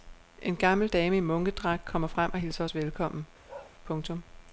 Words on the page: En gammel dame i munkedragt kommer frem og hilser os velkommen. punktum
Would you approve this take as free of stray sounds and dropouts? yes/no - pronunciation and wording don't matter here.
no